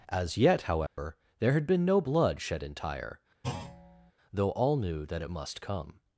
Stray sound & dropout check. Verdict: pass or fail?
fail